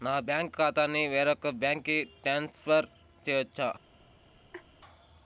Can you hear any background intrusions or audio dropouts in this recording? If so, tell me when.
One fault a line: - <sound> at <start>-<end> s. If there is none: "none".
- laugh at 4.5-4.7 s